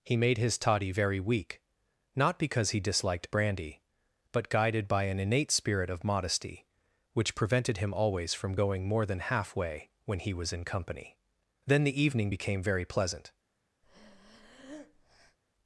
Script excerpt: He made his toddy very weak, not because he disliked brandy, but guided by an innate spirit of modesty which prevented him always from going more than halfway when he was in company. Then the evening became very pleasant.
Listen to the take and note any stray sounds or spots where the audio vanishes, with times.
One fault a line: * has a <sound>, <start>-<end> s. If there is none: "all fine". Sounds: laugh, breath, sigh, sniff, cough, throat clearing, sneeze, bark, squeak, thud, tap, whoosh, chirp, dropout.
* has a breath, 13.8-15.4 s